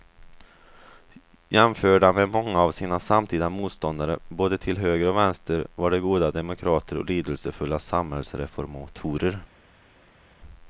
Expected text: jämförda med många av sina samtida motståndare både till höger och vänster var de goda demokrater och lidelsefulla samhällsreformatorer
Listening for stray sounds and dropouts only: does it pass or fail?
pass